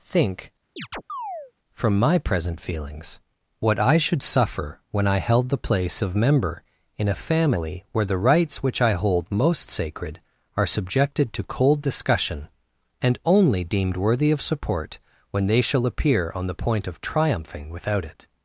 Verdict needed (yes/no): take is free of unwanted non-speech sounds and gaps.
no